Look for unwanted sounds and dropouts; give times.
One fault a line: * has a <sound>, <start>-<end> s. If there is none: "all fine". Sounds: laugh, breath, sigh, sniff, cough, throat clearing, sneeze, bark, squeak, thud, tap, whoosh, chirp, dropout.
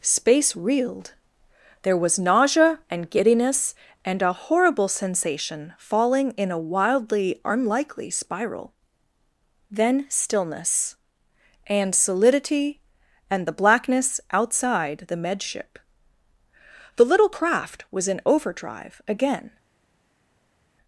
all fine